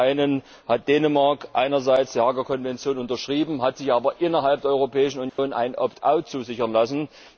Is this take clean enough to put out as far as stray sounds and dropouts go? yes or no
no